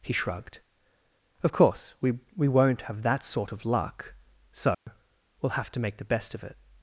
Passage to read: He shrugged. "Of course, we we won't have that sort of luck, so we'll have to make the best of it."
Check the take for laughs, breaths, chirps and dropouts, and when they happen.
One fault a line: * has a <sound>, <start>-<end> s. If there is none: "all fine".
* has a dropout, 4.7-4.9 s